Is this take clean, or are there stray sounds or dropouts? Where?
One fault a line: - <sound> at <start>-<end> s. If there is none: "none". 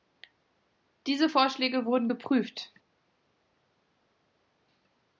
none